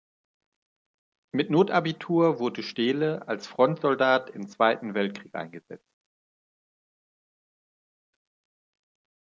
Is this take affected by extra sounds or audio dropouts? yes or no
no